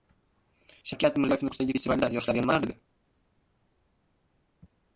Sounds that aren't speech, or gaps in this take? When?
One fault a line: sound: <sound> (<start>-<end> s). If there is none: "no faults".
no faults